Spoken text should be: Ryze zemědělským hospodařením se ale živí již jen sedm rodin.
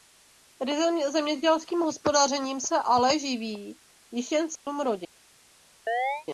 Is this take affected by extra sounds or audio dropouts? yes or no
yes